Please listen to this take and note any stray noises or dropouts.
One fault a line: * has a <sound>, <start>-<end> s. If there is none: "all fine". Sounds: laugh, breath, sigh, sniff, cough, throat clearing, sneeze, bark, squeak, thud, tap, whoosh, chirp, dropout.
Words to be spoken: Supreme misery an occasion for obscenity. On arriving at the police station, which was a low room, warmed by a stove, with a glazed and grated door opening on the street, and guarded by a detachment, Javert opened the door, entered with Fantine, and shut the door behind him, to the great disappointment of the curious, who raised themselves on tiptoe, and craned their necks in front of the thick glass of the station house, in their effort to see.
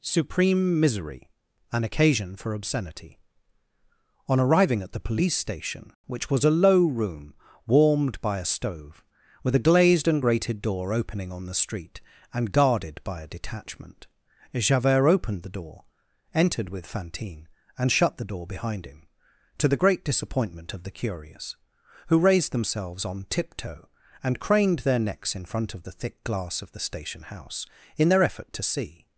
all fine